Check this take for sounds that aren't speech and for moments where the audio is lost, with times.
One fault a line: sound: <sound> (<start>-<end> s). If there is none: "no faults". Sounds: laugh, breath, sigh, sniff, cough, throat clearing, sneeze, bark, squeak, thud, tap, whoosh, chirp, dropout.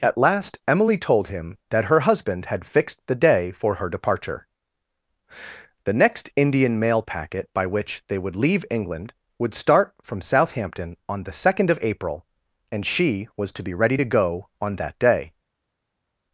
no faults